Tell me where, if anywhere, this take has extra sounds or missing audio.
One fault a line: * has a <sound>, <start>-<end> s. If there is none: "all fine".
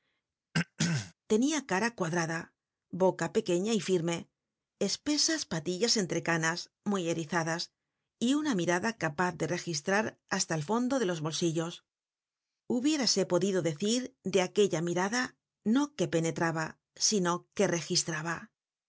* has a throat clearing, 0.5-1.1 s